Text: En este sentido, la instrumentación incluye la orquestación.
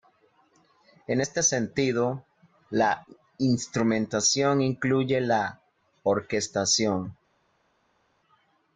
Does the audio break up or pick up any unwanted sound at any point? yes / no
no